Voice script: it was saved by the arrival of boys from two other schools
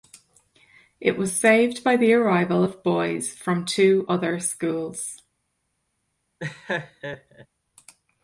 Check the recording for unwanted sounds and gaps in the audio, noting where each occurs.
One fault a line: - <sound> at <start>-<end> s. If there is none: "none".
- laugh at 6.4-7.5 s